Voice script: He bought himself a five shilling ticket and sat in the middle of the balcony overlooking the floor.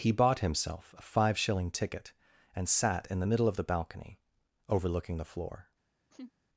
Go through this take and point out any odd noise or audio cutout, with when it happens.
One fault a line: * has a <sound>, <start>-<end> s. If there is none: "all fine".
* has a laugh, 6.1-6.3 s